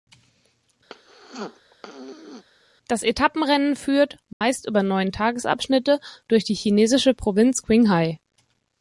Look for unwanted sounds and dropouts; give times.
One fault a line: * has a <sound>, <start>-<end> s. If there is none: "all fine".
* has a throat clearing, 0.9-2.4 s
* has a dropout, 4.3-4.4 s